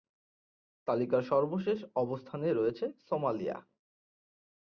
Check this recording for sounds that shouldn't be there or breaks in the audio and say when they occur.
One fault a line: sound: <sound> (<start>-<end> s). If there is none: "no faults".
no faults